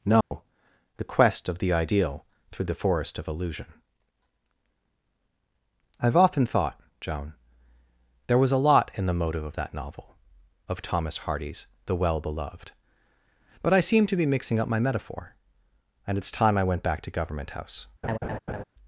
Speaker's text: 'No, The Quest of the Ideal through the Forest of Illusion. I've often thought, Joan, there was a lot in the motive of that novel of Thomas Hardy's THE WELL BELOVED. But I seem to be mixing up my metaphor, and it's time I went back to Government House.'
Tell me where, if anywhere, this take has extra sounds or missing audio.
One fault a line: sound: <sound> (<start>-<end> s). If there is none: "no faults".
sound: dropout (0.2-0.3 s)
sound: laugh (18.0-18.6 s)